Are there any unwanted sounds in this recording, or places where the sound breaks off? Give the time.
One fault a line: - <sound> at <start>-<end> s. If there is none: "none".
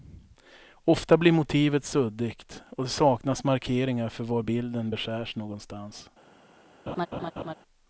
- laugh at 6.9-7.5 s